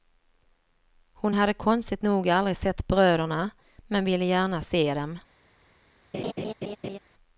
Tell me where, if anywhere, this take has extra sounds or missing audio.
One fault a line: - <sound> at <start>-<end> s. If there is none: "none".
- laugh at 6.1-7.0 s